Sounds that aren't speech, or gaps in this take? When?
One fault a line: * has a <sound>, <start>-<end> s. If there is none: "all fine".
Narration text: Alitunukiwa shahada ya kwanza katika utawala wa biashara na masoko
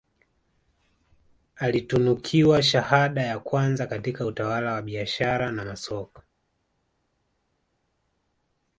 all fine